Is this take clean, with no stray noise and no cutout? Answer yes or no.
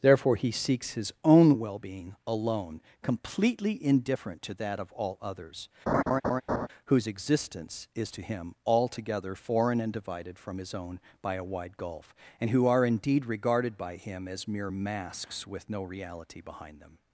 no